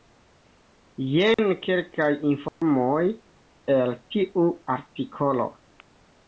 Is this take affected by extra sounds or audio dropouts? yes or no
yes